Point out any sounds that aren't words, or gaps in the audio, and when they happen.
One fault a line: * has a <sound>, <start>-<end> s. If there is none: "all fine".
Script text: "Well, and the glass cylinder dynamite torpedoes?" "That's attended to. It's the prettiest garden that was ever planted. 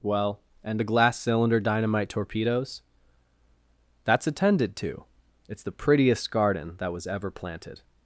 all fine